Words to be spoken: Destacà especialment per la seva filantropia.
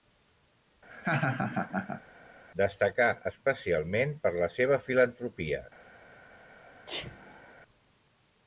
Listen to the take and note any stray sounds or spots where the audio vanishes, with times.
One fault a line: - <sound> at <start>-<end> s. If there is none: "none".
- laugh at 0.9-2.0 s
- sneeze at 6.9-7.5 s